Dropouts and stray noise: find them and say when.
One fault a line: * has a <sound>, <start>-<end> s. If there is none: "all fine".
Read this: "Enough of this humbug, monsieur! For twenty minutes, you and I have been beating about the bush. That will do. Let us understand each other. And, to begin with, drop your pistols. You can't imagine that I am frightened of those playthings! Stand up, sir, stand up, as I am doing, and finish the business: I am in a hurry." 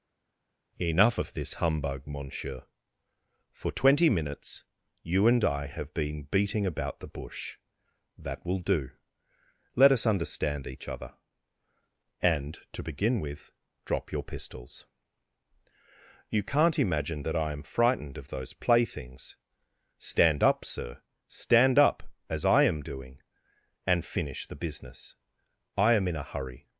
all fine